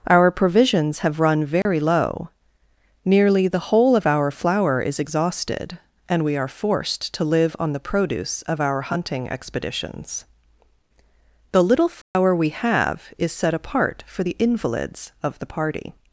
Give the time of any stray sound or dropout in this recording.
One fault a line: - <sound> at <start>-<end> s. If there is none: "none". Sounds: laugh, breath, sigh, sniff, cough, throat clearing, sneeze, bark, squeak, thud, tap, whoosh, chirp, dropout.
- dropout at 1.6-1.7 s
- dropout at 12.0-12.1 s